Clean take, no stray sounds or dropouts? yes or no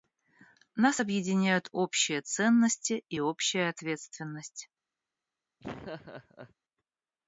no